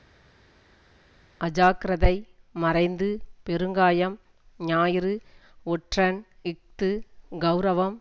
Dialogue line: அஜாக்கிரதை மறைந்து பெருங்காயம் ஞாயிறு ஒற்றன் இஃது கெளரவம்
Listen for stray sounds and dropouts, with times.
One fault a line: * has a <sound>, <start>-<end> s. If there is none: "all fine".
all fine